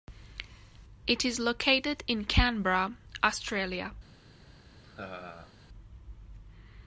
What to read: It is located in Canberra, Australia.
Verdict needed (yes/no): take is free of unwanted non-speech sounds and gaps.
no